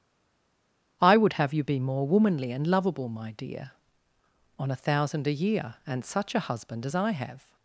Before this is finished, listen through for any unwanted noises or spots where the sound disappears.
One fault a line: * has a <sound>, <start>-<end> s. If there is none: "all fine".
all fine